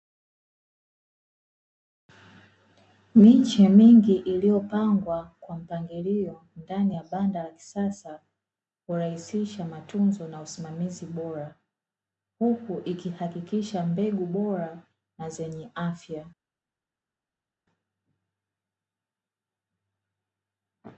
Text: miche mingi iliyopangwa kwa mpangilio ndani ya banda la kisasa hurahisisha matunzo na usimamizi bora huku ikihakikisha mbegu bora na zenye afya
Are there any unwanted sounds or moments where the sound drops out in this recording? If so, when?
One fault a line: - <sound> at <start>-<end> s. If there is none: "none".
none